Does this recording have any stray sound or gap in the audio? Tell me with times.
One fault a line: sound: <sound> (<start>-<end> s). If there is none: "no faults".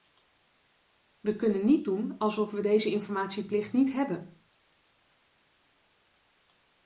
no faults